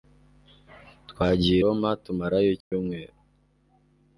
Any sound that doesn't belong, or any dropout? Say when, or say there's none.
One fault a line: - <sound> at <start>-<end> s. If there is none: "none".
- dropout at 2.6-2.7 s